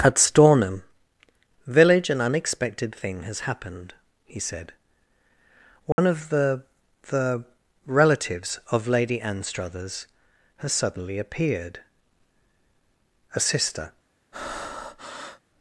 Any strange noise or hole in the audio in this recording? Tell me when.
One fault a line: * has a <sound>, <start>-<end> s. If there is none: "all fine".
* has a dropout, 5.9-6.0 s
* has a breath, 14.3-15.4 s